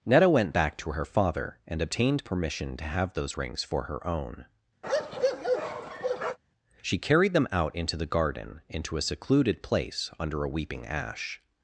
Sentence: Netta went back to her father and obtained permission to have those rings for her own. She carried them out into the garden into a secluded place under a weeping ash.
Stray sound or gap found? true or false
true